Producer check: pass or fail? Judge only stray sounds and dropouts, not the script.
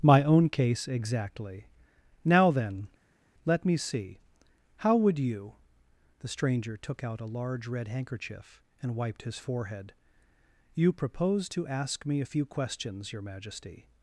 pass